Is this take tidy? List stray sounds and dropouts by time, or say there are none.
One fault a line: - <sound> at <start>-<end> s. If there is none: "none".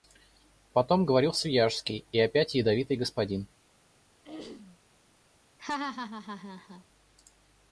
- throat clearing at 4.2-4.8 s
- laugh at 5.6-6.8 s